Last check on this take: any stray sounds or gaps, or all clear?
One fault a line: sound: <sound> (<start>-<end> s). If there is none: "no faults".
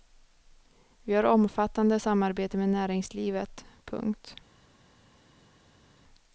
no faults